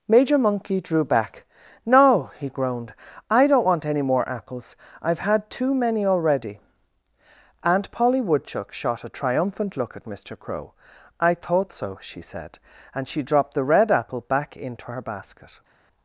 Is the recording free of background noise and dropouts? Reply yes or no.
yes